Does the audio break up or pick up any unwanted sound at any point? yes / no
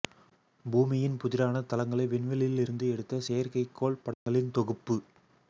yes